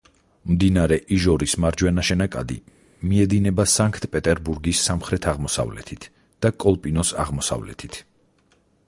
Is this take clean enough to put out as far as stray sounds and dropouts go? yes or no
yes